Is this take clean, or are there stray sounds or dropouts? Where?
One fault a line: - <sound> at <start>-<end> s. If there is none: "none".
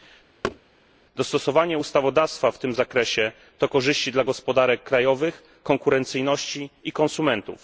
- thud at 0.4-0.6 s